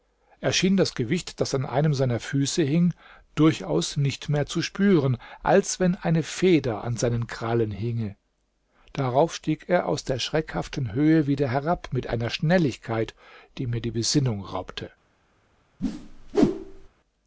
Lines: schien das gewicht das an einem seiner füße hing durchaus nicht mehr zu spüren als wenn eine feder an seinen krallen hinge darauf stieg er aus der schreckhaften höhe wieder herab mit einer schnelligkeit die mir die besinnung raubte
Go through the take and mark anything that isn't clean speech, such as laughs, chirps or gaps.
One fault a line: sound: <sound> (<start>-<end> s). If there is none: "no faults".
sound: whoosh (15.8-16.9 s)